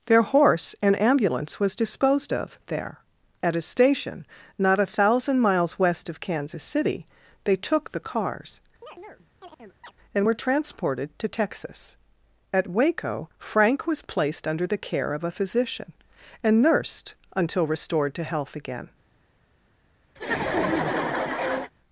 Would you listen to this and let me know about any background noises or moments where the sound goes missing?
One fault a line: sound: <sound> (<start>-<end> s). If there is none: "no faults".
sound: chirp (8.8-9.9 s)
sound: laugh (20.2-21.7 s)